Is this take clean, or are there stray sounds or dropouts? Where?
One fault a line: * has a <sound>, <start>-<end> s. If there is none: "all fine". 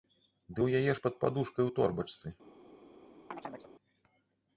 * has a chirp, 3.3-3.7 s